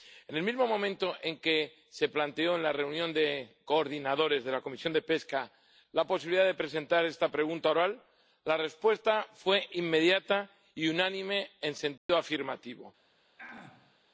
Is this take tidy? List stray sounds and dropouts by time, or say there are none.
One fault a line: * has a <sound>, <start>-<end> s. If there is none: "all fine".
* has a dropout, 12.0-12.1 s
* has a throat clearing, 13.4-14.0 s